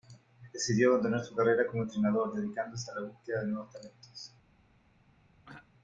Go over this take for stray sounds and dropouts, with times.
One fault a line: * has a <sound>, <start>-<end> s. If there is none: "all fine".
* has a throat clearing, 5.4-5.7 s